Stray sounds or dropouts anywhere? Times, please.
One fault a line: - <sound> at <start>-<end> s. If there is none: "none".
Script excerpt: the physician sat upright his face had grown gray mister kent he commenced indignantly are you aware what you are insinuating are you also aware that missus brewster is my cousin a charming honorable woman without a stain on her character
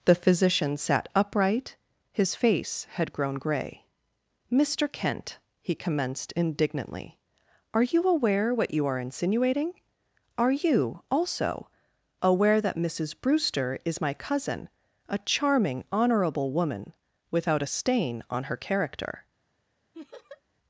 - laugh at 19.9-20.4 s